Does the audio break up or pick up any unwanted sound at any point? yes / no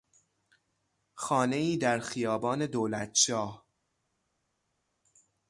no